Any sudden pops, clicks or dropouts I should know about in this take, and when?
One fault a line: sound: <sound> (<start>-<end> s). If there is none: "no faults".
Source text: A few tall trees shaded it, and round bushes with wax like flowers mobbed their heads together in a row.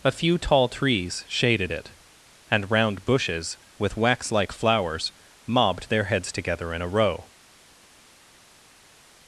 no faults